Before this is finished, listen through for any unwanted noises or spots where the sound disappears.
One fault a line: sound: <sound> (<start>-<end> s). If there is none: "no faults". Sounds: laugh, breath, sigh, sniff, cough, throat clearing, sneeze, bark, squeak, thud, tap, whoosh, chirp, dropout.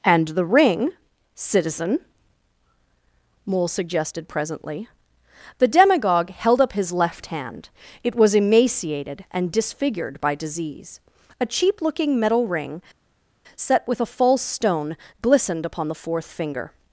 no faults